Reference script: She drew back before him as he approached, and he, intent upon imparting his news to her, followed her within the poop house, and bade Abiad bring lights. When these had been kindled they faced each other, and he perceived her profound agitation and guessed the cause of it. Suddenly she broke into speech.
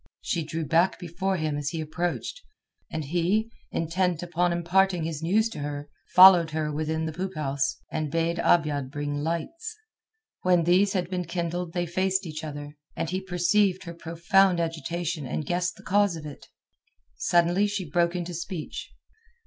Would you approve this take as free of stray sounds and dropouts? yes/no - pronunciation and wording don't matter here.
yes